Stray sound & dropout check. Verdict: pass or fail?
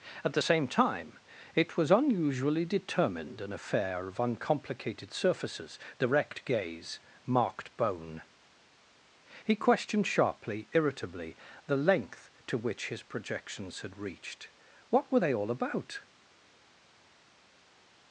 pass